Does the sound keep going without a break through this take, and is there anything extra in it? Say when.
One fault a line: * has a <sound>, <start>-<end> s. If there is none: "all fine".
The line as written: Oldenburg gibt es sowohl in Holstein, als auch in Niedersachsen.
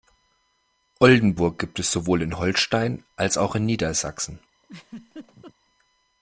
* has a laugh, 4.6-5.5 s